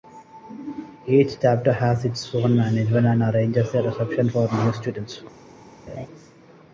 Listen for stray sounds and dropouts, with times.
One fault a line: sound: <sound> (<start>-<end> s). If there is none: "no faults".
sound: laugh (5.9-6.1 s)